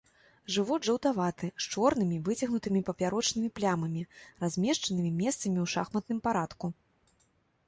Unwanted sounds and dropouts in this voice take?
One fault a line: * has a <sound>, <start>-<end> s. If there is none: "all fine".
all fine